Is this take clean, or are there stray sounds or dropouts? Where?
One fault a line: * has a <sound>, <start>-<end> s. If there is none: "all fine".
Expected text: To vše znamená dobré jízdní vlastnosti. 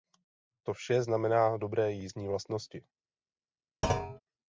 * has a thud, 3.8-4.2 s